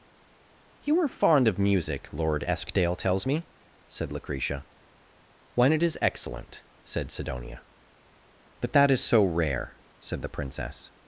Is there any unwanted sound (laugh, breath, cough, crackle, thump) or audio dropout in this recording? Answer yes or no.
no